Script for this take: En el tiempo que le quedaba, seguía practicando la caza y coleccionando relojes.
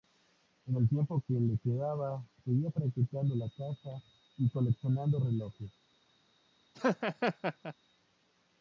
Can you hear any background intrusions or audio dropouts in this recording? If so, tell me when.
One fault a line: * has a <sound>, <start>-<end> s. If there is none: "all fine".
* has a laugh, 6.7-7.7 s